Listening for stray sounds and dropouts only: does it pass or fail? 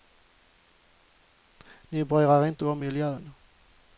pass